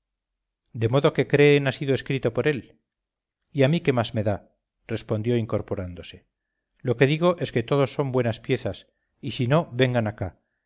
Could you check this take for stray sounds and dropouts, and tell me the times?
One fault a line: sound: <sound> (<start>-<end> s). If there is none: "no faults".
no faults